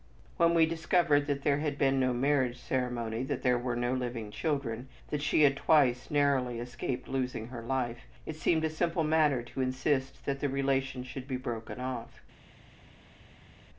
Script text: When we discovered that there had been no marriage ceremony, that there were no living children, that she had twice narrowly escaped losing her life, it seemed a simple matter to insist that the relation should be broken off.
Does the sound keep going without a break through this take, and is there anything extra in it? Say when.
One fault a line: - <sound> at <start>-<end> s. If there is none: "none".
none